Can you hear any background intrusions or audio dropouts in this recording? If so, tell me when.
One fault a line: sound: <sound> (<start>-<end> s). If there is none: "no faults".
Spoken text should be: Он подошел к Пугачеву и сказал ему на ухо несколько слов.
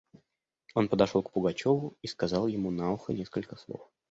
no faults